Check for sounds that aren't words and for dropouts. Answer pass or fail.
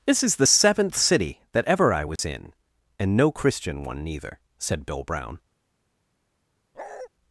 fail